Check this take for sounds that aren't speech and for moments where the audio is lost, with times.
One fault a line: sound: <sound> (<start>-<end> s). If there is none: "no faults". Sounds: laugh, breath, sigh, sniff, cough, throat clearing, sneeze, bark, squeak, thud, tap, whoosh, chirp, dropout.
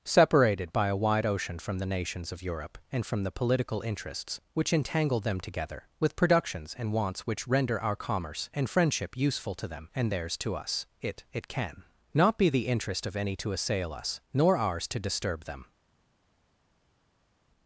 no faults